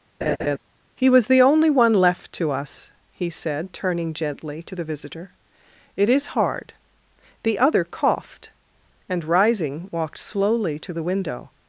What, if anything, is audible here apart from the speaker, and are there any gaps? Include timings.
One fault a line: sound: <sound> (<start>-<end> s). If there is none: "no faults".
sound: laugh (0.2-0.6 s)